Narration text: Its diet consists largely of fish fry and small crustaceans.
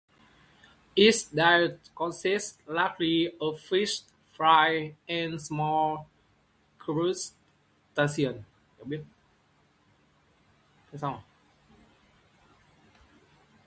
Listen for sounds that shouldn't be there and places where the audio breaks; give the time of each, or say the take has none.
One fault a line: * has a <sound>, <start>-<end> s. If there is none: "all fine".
all fine